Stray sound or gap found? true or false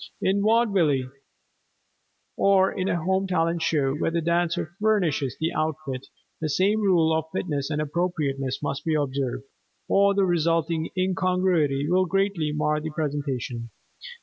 false